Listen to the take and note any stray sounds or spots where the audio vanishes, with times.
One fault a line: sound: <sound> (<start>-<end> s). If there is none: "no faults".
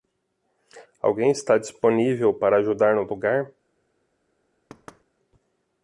sound: thud (4.7-5.0 s)